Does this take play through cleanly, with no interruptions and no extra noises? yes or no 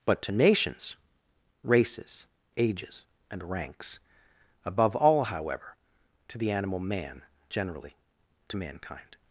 yes